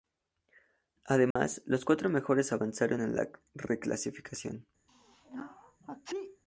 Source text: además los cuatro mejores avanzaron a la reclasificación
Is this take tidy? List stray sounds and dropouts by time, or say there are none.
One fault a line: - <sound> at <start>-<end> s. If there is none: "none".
- dropout at 1.3-1.4 s
- sneeze at 4.9-6.4 s